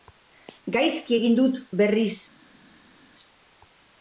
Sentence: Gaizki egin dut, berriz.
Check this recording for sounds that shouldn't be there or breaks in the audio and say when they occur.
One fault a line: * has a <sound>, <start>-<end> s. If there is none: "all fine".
all fine